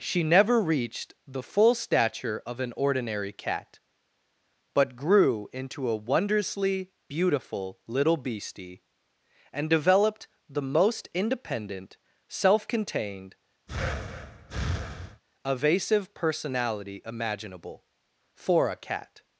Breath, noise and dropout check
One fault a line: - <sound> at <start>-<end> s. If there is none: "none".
- breath at 13.7-15.2 s